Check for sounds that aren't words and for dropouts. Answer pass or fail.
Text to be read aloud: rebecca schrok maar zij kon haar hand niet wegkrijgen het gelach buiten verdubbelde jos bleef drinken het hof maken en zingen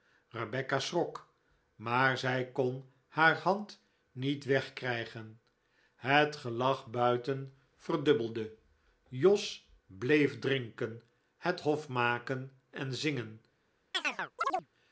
fail